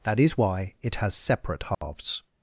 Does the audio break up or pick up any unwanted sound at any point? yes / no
yes